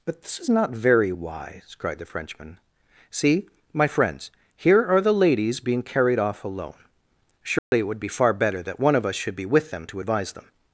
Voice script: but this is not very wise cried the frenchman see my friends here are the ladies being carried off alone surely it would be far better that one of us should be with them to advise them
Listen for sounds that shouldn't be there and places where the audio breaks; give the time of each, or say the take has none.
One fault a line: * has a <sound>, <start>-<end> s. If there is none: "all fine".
* has a dropout, 7.6-7.7 s